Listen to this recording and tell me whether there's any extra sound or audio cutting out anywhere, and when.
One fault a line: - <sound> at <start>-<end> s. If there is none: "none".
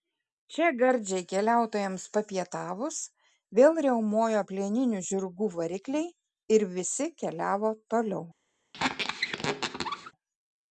- squeak at 8.7-10.1 s